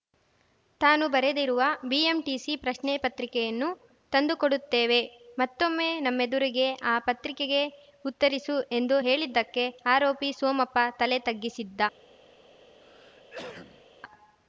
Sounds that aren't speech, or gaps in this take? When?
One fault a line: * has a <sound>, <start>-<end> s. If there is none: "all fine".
* has a cough, 12.8-13.9 s